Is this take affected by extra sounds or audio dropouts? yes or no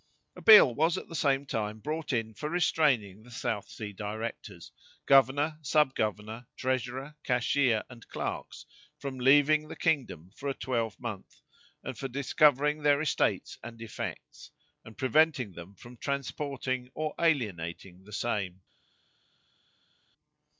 no